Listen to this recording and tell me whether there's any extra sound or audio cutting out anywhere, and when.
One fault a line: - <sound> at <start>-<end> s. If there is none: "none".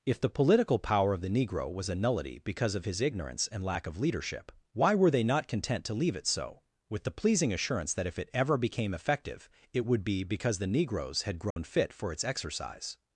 - dropout at 11.5-11.6 s